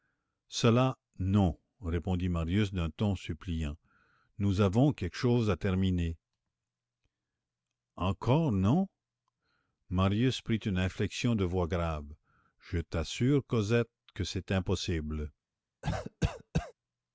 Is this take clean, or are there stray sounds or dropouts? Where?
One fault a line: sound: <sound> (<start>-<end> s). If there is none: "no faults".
sound: cough (15.8-16.7 s)